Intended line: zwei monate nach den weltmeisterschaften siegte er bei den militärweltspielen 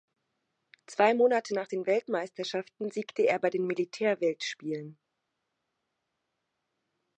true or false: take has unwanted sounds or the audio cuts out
false